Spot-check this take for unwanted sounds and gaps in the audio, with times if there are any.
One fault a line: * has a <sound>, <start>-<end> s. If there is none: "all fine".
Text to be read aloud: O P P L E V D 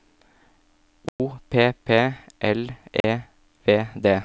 * has a dropout, 1.1-1.2 s
* has a dropout, 3.0-3.0 s